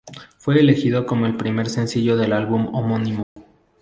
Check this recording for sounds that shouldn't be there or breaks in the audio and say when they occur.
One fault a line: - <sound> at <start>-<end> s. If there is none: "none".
- dropout at 3.2-3.4 s